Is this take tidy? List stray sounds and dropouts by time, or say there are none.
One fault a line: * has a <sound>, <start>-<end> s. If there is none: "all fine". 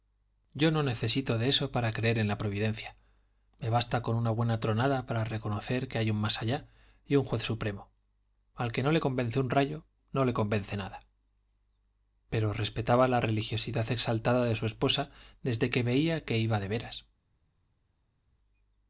all fine